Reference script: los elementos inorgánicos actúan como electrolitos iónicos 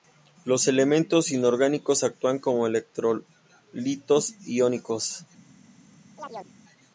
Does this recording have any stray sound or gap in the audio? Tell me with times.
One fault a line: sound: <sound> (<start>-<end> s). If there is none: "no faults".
sound: chirp (6.2-6.6 s)